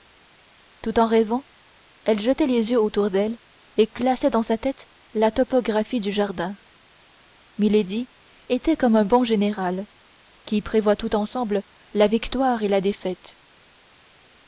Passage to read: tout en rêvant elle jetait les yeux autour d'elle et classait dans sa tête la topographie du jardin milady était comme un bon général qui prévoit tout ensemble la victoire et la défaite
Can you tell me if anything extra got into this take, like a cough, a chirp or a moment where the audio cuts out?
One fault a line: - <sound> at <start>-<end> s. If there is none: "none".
none